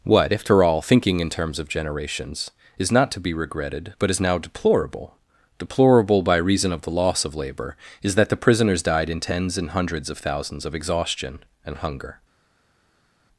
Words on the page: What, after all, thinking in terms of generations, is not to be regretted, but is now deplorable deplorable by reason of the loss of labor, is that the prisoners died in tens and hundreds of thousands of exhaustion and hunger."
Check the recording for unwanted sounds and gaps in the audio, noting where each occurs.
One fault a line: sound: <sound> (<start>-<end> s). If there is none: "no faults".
no faults